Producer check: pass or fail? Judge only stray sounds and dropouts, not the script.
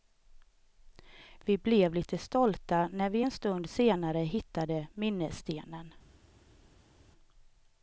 pass